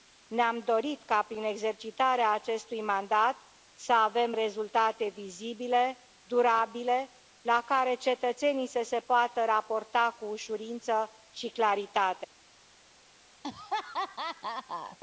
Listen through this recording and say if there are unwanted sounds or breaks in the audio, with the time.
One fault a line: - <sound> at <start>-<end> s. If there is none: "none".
- laugh at 13.4-15.0 s